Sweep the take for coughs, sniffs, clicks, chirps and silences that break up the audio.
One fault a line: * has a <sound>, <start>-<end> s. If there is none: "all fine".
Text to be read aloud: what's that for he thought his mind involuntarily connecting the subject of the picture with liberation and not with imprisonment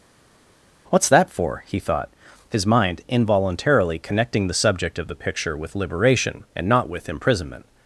all fine